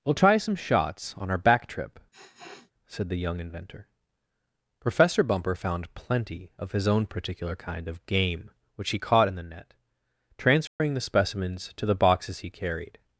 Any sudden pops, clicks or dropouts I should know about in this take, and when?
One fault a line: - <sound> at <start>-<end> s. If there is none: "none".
- sniff at 2.1-2.7 s
- dropout at 10.7-10.8 s